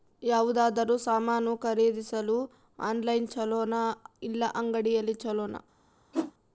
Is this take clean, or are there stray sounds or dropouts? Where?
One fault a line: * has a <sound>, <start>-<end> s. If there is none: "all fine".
* has a whoosh, 6.1-6.3 s